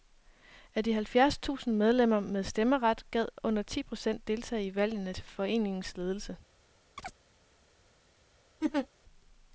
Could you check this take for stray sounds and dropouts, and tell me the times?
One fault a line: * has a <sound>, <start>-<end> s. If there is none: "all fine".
* has a chirp, 7.0-7.2 s
* has a laugh, 8.6-8.9 s